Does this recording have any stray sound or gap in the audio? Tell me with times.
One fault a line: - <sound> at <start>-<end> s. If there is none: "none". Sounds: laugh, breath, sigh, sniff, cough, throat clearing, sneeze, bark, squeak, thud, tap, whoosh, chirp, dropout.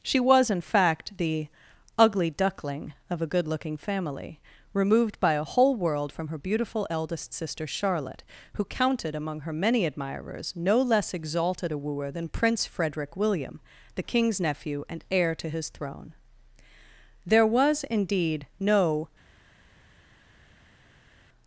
none